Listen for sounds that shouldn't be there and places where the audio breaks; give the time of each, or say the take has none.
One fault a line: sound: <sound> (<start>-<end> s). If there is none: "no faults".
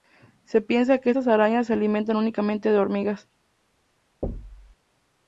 sound: thud (4.2-4.8 s)